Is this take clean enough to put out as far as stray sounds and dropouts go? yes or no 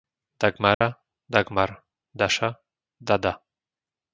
no